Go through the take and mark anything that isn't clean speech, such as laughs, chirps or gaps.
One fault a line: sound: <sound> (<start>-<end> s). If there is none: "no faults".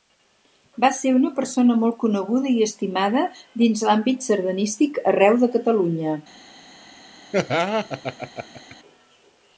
sound: laugh (7.3-8.8 s)